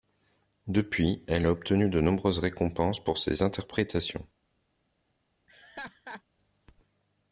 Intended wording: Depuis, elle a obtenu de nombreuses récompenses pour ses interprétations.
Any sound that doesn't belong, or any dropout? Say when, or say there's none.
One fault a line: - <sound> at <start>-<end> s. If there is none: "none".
- laugh at 5.5-6.2 s